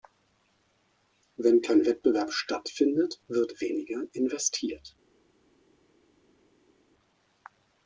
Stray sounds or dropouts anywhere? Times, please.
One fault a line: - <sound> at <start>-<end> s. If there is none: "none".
none